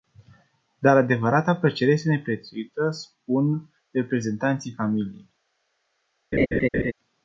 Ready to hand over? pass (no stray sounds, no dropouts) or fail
fail